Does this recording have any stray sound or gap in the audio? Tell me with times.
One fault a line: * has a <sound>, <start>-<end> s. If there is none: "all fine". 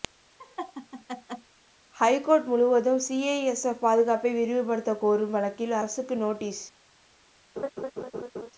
* has a laugh, 0.4-1.5 s
* has a laugh, 7.6-8.5 s